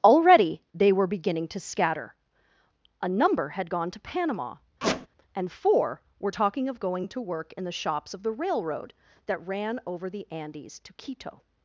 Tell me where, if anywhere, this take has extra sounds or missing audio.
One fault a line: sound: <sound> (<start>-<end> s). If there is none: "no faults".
sound: squeak (4.8-5.1 s)